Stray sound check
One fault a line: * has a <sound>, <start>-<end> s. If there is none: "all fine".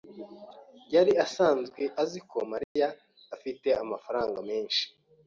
* has a dropout, 2.6-2.8 s